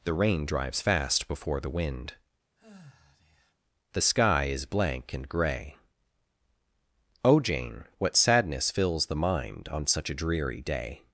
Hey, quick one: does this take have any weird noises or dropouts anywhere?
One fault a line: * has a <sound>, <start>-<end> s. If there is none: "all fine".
* has a sigh, 2.6-3.5 s